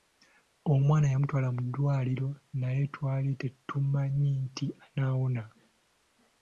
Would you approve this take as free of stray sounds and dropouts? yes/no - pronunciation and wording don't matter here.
yes